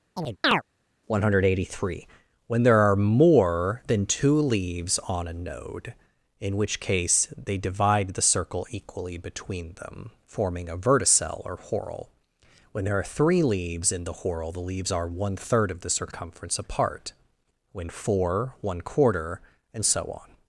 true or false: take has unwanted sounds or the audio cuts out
true